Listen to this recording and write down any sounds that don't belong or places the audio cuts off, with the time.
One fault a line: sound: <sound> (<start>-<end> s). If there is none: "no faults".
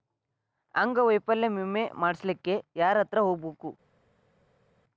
no faults